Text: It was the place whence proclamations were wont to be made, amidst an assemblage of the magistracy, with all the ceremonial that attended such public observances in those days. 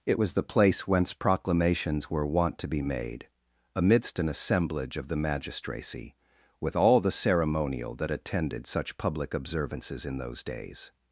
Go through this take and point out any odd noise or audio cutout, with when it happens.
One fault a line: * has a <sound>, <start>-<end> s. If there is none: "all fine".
all fine